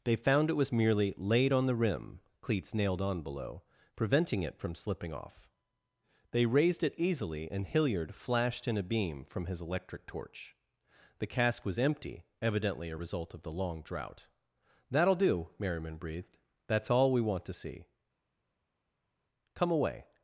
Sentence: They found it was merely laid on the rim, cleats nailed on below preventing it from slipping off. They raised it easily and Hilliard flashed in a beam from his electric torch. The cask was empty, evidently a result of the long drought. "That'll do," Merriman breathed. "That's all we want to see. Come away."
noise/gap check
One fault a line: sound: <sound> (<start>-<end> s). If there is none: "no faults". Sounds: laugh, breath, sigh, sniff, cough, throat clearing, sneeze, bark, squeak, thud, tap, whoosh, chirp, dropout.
no faults